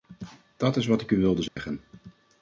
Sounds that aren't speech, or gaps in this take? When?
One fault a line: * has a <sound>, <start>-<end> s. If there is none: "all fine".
* has a dropout, 1.5-1.6 s